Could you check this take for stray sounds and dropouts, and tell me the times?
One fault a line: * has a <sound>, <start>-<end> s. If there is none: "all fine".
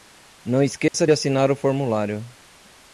* has a dropout, 0.9-0.9 s